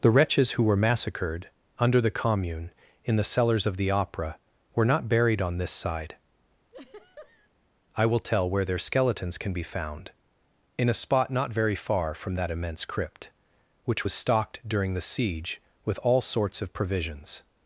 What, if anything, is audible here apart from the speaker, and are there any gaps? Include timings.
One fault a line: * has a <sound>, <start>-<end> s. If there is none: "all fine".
* has a laugh, 6.7-7.5 s